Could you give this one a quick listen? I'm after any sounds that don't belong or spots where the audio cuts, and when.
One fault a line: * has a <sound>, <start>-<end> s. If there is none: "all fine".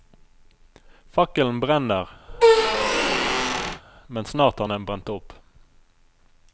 * has a squeak, 2.3-3.8 s